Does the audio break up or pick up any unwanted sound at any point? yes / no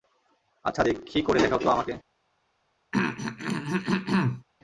yes